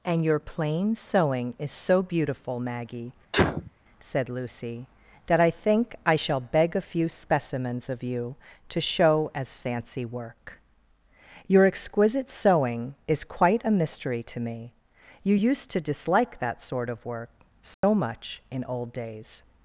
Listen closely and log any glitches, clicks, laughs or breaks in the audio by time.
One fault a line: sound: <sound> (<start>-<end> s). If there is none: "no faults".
sound: sneeze (3.3-3.7 s)
sound: dropout (17.7-17.8 s)